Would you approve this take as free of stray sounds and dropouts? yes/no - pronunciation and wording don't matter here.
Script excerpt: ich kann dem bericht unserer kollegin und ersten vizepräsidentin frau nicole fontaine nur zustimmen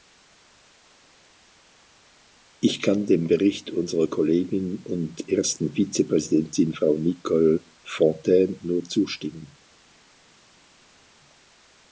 yes